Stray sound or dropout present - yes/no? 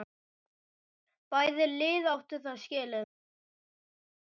no